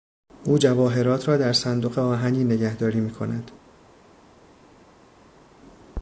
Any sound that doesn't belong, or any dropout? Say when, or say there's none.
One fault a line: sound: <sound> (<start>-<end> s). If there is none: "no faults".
no faults